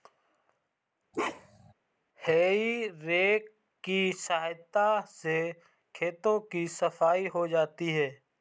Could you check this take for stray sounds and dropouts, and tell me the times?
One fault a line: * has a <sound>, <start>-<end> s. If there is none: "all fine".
* has a bark, 1.1-1.7 s